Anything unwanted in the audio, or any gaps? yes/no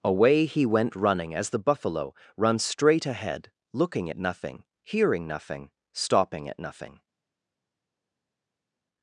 no